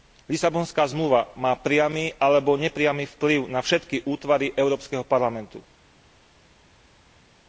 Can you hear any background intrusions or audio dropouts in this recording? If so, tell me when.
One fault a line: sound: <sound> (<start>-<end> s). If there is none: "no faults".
no faults